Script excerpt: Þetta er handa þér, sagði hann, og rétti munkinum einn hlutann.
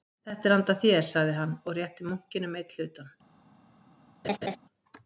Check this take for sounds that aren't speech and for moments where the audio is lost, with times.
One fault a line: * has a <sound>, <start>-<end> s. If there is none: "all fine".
* has a laugh, 4.2-4.6 s